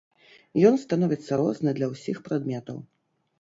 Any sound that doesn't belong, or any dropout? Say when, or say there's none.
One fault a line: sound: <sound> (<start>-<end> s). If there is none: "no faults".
no faults